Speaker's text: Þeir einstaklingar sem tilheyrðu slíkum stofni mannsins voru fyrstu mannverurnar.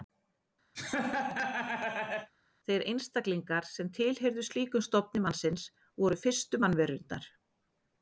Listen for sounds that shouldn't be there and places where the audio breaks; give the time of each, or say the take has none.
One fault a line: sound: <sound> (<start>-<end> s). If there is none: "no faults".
sound: laugh (0.8-2.3 s)